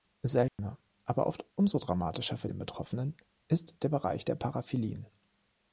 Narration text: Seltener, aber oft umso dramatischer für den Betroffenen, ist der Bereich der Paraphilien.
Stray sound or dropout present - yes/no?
yes